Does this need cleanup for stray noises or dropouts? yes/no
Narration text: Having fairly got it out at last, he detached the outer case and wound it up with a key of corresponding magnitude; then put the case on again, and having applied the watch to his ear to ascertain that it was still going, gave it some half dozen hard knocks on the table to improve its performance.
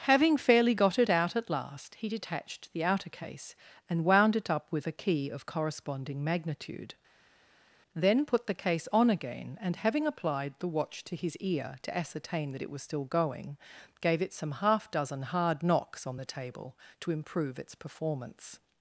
no